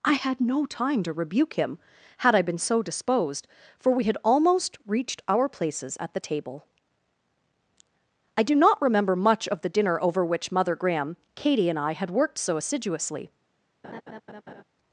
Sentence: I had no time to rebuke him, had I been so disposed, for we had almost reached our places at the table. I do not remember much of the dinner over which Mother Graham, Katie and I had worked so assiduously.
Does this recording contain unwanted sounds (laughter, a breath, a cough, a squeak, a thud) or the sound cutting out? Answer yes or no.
yes